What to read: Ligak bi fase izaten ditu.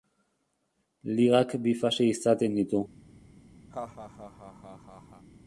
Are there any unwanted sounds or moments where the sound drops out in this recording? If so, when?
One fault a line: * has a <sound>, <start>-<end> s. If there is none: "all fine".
* has a laugh, 3.7-5.3 s